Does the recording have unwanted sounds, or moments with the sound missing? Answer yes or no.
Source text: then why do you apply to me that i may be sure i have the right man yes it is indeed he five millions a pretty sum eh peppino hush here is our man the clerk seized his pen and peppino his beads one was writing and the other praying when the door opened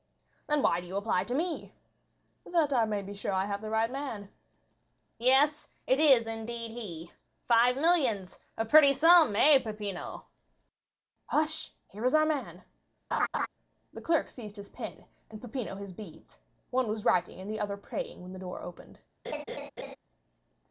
yes